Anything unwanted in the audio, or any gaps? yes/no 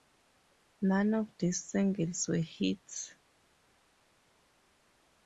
no